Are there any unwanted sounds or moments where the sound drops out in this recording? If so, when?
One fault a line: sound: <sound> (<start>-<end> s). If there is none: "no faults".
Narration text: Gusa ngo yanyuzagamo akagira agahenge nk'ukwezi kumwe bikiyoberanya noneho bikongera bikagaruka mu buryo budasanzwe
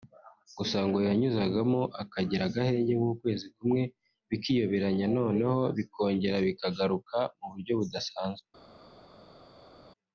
no faults